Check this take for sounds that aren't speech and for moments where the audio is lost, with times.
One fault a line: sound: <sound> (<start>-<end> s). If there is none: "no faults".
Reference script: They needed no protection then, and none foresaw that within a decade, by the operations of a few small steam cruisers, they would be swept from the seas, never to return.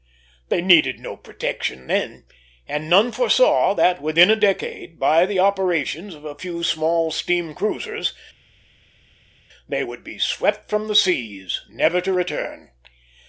no faults